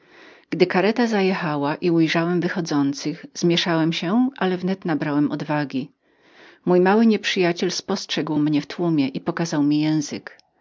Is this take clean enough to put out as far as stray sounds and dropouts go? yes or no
yes